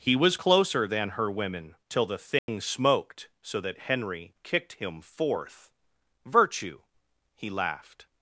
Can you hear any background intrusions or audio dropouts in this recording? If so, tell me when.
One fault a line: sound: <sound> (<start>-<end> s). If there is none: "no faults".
sound: dropout (2.4-2.5 s)